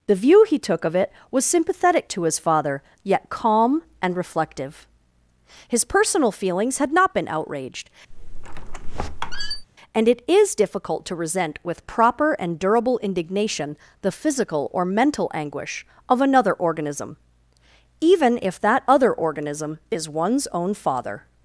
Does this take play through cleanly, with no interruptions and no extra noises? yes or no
no